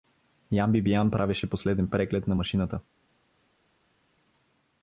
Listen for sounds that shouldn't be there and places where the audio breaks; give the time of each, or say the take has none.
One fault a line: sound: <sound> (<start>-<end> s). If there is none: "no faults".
no faults